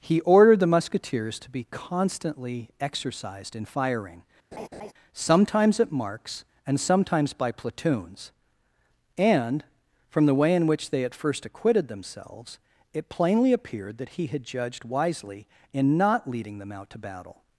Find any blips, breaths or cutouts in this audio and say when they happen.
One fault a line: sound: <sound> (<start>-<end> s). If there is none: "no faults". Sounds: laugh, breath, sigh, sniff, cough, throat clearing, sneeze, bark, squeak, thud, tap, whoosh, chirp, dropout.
sound: laugh (4.5-4.9 s)